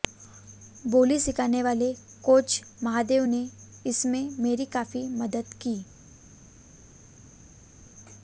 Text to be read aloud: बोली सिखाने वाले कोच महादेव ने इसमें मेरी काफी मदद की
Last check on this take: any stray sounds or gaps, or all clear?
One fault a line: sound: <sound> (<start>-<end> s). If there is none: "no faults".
no faults